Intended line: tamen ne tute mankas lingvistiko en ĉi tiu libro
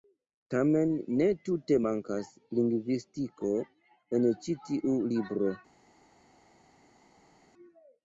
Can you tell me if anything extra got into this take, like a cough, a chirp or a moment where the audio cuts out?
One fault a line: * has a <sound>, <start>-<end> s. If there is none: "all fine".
all fine